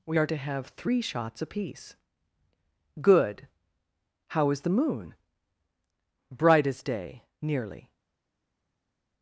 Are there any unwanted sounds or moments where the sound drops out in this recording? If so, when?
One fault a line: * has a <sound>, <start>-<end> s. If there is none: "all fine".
all fine